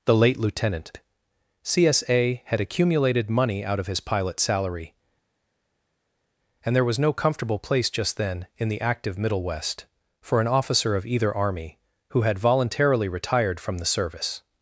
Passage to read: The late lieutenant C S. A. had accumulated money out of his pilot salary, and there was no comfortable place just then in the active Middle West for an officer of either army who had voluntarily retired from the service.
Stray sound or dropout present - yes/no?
no